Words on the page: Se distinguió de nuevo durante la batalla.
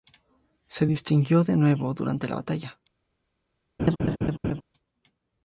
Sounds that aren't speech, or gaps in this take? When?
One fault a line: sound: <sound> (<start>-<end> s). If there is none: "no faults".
sound: laugh (3.8-4.6 s)